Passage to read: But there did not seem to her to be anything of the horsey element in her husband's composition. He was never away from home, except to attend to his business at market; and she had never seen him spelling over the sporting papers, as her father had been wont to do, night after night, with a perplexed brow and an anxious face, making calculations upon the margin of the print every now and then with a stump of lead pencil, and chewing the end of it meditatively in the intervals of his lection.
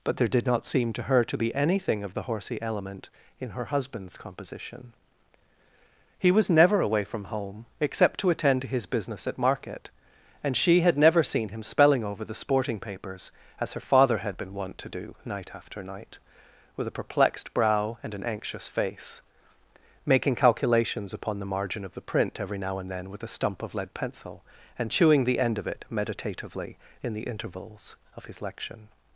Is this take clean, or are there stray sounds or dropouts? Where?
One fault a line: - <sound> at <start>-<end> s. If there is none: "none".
none